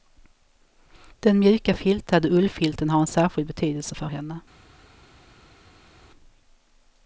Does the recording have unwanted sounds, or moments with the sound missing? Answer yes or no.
no